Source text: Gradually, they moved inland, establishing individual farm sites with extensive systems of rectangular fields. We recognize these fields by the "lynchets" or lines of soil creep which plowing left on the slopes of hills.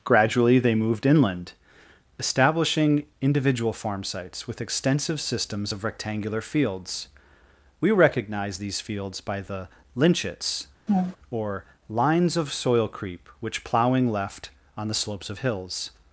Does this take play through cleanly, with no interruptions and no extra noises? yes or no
no